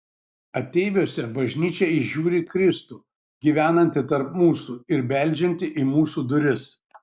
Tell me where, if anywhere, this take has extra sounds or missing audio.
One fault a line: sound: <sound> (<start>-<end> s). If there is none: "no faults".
no faults